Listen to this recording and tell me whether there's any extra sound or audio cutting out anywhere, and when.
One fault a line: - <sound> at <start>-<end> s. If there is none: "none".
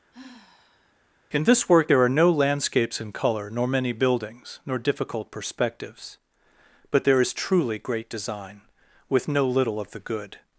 - sigh at 0.1-0.9 s